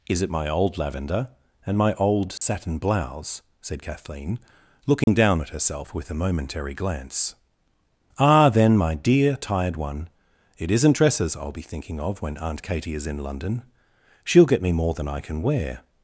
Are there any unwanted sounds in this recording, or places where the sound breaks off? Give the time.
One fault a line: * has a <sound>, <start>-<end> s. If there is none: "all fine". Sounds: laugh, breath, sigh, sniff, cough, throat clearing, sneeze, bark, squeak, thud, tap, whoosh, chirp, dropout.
* has a dropout, 2.4-2.4 s
* has a dropout, 5.0-5.1 s